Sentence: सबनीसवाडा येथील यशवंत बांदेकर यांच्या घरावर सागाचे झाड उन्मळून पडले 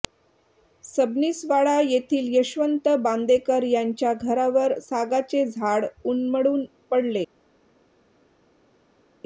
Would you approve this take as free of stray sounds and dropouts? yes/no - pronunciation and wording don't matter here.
yes